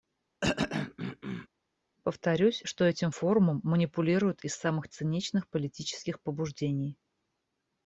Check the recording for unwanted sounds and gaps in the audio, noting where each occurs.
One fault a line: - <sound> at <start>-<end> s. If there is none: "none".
- throat clearing at 0.4-1.5 s